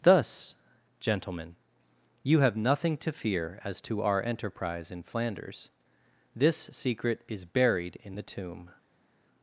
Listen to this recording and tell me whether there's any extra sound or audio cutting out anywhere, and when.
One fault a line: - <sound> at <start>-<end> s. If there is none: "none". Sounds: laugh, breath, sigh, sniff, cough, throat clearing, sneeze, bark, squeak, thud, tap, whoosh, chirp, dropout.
none